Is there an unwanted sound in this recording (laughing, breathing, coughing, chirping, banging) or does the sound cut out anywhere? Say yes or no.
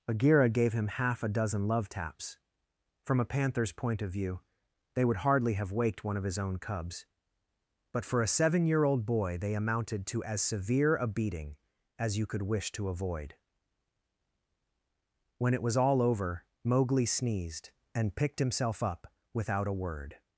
no